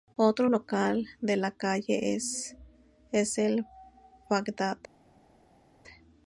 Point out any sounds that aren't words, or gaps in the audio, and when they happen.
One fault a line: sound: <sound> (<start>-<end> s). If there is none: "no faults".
no faults